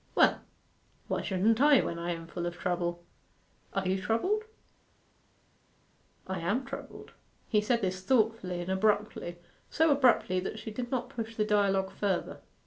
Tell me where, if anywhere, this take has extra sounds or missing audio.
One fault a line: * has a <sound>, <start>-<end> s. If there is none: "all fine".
all fine